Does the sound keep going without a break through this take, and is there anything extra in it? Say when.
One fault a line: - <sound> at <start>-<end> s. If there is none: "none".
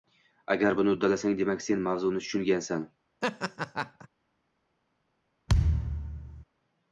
- laugh at 3.2-4.1 s
- thud at 5.5-6.4 s